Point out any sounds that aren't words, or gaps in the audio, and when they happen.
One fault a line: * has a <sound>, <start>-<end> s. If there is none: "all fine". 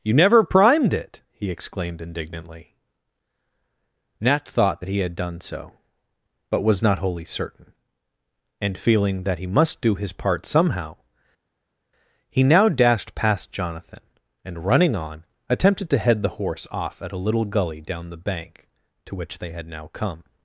all fine